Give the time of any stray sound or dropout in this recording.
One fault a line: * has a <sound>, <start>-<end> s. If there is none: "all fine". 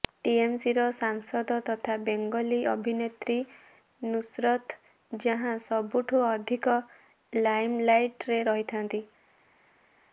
all fine